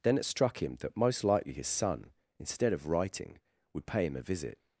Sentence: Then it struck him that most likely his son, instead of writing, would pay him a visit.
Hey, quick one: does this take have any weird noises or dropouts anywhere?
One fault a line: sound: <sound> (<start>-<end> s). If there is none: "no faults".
no faults